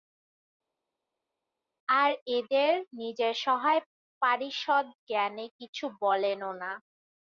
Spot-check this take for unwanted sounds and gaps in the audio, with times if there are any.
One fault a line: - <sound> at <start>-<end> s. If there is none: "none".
none